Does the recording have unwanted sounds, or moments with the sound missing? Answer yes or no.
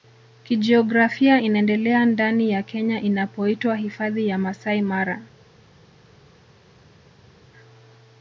no